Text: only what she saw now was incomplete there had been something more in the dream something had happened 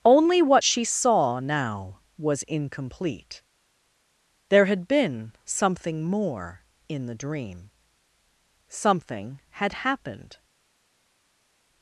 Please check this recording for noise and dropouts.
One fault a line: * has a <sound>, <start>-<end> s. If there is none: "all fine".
all fine